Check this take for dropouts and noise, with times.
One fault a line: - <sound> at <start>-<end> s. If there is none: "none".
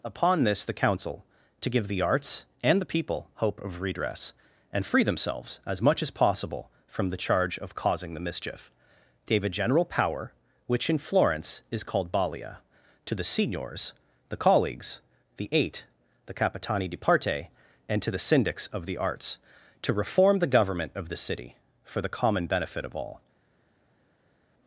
none